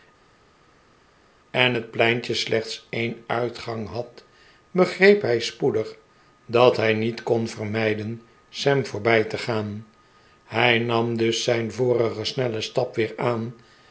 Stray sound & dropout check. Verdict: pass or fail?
pass